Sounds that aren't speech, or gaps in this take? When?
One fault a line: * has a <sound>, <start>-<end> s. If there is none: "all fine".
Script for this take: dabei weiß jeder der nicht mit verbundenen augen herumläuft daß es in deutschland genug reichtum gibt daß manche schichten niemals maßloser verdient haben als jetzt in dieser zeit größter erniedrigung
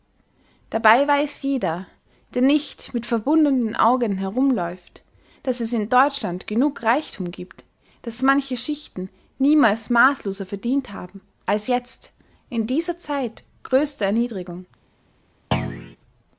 * has a thud, 15.5-16.0 s